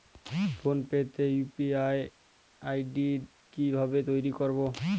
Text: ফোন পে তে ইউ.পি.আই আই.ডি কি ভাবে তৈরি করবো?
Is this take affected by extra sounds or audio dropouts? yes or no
no